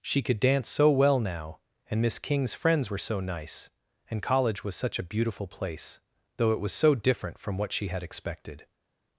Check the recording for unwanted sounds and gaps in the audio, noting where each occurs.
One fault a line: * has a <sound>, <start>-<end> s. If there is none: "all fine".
all fine